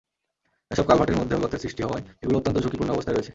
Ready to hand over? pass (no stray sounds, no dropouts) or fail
pass